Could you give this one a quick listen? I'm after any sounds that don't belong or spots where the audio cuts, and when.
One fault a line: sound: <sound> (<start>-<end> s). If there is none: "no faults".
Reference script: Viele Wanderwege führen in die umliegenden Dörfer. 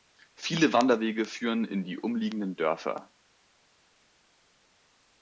no faults